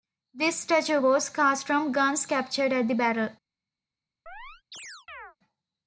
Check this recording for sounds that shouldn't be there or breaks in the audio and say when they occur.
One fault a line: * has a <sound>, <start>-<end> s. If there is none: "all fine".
* has a chirp, 4.3-5.4 s